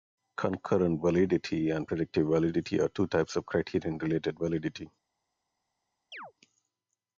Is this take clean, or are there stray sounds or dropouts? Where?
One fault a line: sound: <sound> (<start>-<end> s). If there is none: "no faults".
sound: chirp (6.1-6.3 s)